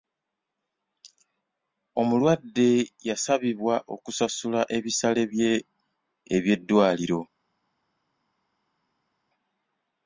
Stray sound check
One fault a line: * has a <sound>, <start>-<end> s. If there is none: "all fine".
all fine